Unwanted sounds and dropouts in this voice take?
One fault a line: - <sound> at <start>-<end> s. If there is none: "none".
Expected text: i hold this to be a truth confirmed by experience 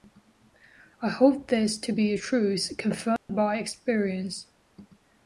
- dropout at 3.2-3.3 s